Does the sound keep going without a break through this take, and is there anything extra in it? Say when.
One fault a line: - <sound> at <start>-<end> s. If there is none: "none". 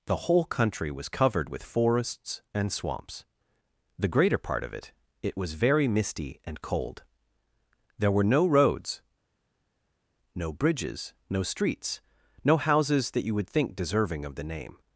none